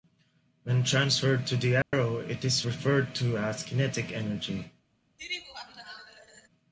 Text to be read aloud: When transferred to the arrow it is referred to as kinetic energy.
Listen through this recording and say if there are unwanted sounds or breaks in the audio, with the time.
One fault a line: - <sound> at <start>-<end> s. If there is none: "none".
- dropout at 1.8-1.9 s
- laugh at 5.2-6.5 s